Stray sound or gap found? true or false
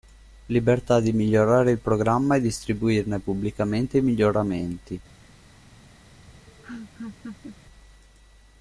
true